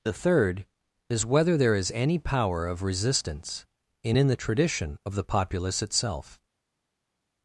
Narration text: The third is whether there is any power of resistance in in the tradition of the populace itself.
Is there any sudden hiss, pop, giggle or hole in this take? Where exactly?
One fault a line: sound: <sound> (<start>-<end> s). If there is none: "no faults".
no faults